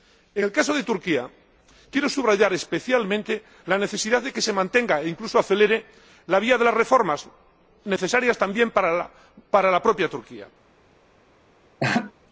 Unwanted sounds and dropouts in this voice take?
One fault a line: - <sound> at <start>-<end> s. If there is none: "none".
- laugh at 11.8-12.1 s